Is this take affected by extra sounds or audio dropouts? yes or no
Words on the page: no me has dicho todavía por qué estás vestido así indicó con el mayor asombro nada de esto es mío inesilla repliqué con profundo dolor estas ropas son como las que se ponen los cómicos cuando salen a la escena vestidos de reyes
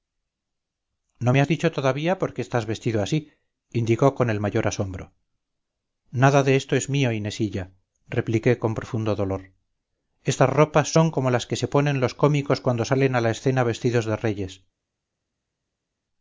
no